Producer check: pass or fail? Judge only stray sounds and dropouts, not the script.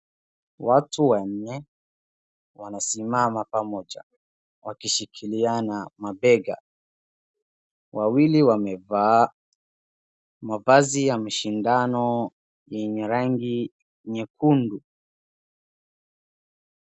pass